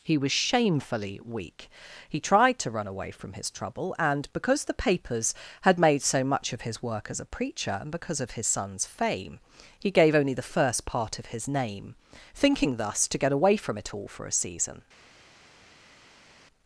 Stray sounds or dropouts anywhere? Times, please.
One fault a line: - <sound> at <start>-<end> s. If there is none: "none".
none